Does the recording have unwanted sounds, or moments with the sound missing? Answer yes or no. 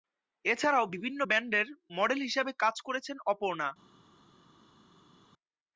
no